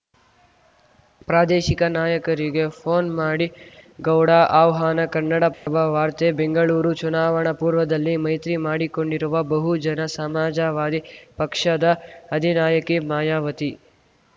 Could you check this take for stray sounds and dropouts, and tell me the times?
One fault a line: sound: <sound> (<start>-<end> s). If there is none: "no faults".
sound: dropout (5.5-5.7 s)